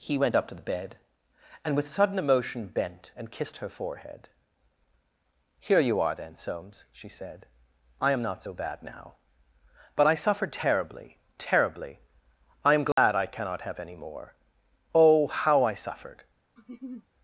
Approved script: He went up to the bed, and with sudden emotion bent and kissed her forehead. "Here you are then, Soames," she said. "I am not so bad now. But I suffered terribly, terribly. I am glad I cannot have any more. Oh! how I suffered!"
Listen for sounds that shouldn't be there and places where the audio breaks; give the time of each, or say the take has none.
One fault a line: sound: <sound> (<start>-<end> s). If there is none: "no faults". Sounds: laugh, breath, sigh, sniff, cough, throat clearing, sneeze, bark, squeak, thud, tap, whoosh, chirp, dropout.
sound: dropout (12.9-13.0 s)
sound: laugh (16.6-17.1 s)